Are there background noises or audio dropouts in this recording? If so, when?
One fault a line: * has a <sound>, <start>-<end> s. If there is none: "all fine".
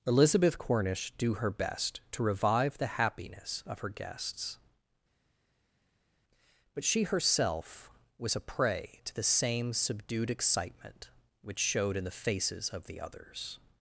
all fine